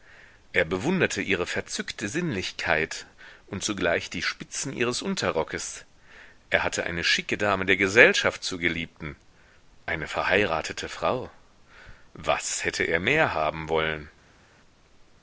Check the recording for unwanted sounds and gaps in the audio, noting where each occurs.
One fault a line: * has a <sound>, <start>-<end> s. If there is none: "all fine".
all fine